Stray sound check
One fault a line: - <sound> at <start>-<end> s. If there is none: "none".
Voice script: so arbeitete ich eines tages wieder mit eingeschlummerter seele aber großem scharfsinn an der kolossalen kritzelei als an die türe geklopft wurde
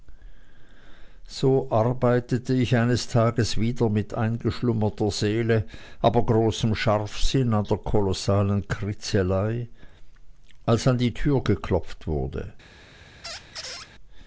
- squeak at 13.2-13.9 s